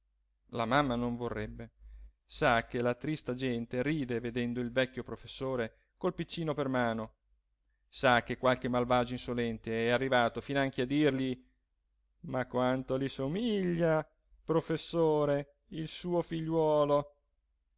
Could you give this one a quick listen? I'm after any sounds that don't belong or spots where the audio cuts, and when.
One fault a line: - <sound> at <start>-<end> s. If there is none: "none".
none